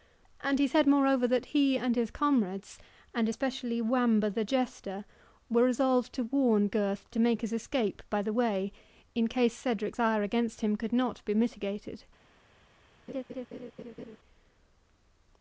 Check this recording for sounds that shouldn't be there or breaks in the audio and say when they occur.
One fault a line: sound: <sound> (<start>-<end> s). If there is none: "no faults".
sound: laugh (13.1-14.2 s)